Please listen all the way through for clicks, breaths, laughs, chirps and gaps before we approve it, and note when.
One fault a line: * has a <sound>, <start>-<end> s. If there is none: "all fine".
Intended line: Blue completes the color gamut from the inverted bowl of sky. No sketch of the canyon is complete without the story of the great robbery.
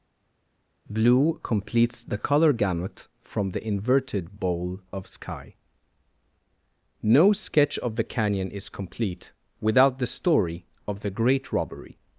all fine